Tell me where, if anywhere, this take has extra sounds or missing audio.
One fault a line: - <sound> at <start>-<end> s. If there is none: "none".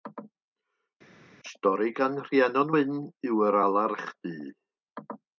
none